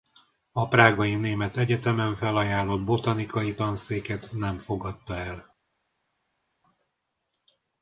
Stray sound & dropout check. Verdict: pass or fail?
pass